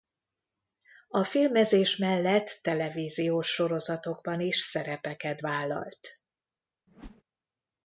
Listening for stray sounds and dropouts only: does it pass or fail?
fail